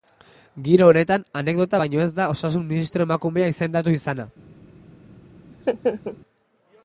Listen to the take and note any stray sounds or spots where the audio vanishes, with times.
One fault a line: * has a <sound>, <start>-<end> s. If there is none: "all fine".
* has a laugh, 5.5-6.2 s